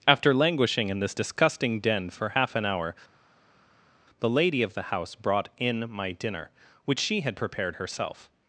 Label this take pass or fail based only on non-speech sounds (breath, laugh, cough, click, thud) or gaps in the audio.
pass